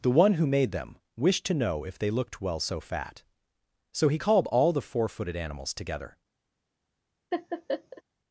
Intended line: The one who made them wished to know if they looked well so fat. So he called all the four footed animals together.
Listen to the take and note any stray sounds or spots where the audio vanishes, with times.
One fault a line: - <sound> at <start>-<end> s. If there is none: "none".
- laugh at 7.3-8.0 s